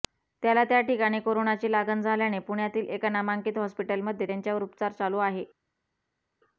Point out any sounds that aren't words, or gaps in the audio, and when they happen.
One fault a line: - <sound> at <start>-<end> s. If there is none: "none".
none